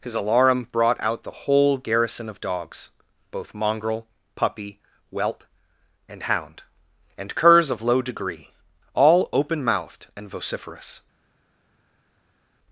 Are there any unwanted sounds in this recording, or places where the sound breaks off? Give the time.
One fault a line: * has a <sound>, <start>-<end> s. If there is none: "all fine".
all fine